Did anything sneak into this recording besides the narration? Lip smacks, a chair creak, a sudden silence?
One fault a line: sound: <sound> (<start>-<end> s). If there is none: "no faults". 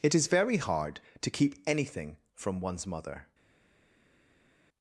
no faults